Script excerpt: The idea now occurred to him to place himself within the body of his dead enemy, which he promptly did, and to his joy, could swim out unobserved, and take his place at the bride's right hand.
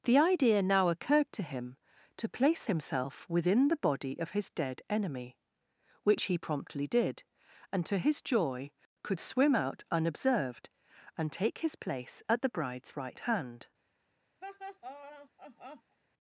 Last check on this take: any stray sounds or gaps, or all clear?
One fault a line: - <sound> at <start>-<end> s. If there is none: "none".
- laugh at 14.4-16.0 s